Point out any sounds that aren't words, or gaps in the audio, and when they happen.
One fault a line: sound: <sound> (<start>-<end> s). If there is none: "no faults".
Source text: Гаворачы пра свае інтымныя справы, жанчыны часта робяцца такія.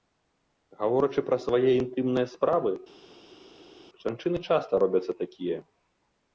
no faults